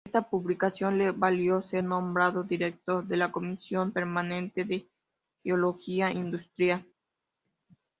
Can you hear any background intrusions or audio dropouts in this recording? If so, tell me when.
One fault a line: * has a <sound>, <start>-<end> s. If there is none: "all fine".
all fine